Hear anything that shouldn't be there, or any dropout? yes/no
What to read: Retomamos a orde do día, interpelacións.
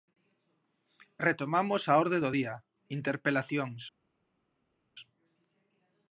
no